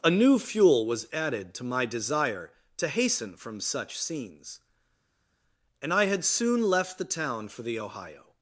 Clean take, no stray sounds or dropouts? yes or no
yes